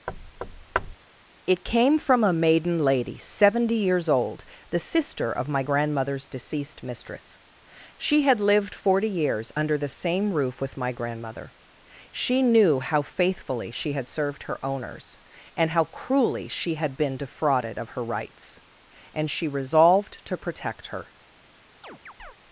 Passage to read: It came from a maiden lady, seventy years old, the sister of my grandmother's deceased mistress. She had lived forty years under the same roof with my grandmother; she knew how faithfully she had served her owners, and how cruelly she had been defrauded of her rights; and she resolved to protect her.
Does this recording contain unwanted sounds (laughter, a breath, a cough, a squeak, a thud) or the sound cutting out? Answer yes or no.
yes